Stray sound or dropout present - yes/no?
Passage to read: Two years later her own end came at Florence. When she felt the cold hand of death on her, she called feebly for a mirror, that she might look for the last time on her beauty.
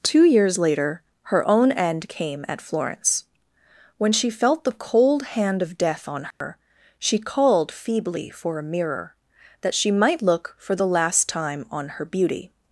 yes